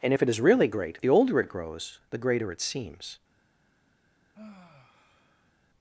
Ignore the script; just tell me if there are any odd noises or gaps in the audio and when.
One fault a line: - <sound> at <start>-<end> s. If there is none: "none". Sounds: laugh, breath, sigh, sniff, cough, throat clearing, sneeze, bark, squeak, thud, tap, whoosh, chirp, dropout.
- sigh at 4.3-5.5 s